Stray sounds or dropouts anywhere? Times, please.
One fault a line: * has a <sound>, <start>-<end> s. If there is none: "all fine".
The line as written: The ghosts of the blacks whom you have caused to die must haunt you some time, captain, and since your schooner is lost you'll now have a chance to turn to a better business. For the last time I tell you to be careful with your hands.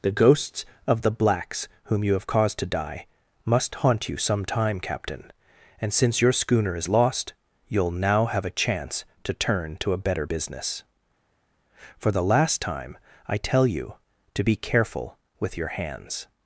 all fine